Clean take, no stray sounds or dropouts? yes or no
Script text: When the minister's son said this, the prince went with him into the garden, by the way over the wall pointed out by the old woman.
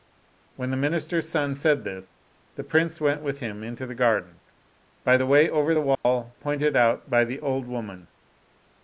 no